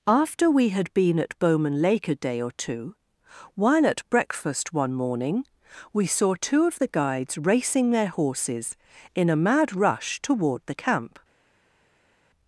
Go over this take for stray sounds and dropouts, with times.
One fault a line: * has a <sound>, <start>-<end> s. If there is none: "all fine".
all fine